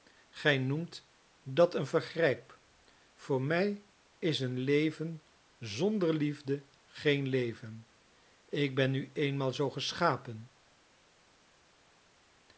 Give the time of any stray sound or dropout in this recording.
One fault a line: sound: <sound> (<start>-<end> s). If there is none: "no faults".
no faults